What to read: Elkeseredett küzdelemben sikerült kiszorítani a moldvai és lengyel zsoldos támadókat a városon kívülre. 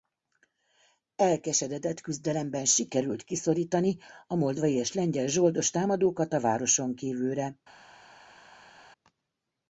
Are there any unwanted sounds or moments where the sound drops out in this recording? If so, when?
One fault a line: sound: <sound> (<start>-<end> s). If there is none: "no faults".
no faults